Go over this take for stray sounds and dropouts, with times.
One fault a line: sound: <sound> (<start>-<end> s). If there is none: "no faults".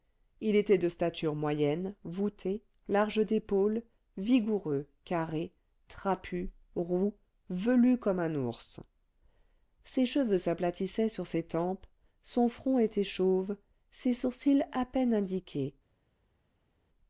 no faults